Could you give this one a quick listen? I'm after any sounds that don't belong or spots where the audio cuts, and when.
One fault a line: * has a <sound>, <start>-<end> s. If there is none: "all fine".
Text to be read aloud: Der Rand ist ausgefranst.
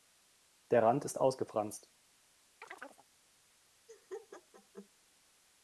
* has a chirp, 2.6-3.1 s
* has a laugh, 3.9-4.9 s